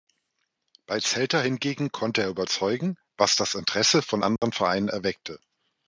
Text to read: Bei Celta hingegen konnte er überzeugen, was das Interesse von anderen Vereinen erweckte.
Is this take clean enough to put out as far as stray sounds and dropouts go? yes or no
no